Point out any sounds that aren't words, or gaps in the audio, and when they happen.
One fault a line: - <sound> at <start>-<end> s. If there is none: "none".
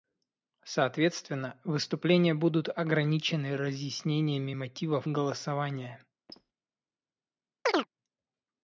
- squeak at 6.3-6.5 s
- chirp at 7.6-7.9 s